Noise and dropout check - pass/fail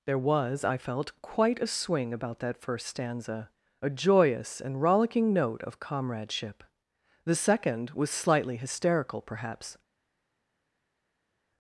pass